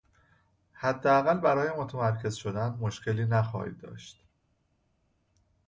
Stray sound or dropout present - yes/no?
no